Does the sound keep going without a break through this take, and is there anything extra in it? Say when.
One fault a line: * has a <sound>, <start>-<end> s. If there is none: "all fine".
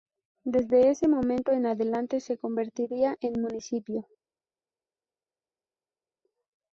all fine